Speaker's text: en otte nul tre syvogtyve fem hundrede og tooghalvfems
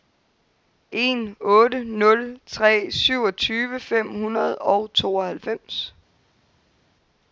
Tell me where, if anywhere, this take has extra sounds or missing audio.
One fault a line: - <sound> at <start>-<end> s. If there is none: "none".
none